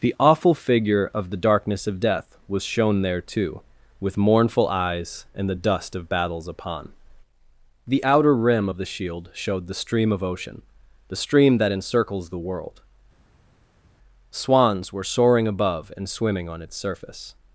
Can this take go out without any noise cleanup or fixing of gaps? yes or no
yes